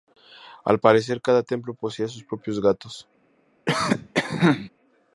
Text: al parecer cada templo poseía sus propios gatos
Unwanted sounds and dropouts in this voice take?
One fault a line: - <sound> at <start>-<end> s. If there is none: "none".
- cough at 3.7-4.7 s